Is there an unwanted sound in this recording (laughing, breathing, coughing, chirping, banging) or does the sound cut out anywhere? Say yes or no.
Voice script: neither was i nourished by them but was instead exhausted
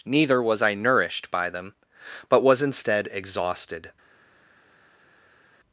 no